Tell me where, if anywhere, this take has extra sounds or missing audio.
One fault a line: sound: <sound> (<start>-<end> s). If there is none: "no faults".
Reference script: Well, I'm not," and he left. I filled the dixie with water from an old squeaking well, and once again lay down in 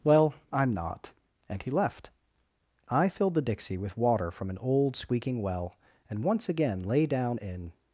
no faults